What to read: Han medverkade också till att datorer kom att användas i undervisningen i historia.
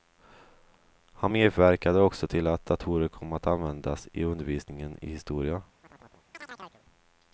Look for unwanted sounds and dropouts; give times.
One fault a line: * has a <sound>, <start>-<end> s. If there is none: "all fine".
* has a chirp, 5.8-6.8 s